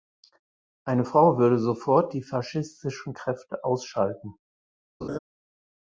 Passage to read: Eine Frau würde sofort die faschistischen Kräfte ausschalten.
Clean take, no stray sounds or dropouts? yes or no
no